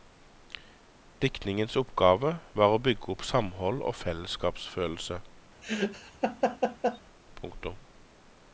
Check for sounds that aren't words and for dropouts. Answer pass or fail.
fail